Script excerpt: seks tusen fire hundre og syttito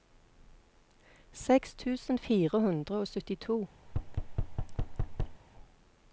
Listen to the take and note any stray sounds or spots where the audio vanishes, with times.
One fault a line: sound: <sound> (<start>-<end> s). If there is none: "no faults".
sound: thud (3.9-5.4 s)